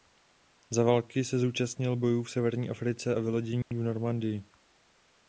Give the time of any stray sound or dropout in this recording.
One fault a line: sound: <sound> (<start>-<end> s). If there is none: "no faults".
sound: dropout (3.6-3.7 s)